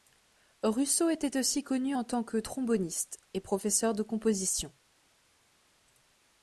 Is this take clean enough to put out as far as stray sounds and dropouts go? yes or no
yes